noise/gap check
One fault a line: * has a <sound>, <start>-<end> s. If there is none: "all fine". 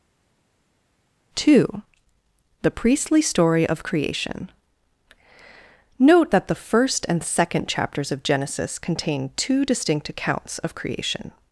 all fine